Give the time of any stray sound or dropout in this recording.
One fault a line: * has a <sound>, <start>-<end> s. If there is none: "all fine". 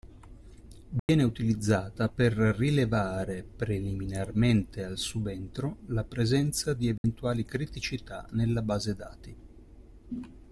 * has a dropout, 1.0-1.1 s
* has a dropout, 7.0-7.0 s